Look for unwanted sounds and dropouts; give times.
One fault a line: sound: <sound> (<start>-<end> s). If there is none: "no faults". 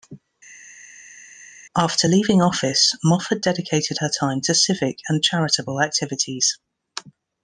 no faults